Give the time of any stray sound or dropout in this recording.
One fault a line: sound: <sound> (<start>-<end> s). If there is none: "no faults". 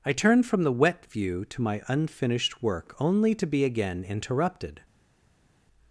no faults